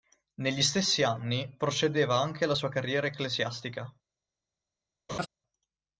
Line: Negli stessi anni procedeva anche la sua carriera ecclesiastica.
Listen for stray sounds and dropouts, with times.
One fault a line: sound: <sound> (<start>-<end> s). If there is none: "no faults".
sound: laugh (5.1-5.3 s)